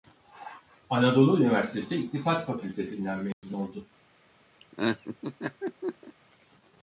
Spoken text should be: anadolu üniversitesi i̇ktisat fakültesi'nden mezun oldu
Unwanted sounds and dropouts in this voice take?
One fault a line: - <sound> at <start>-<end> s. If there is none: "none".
- dropout at 3.3-3.4 s
- laugh at 4.6-6.1 s